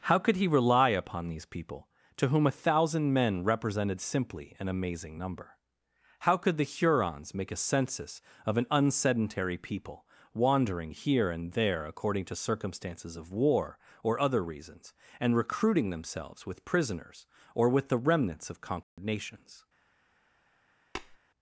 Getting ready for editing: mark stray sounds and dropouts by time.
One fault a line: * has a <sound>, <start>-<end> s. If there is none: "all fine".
* has a dropout, 18.8-19.0 s
* has a tap, 21.0-21.2 s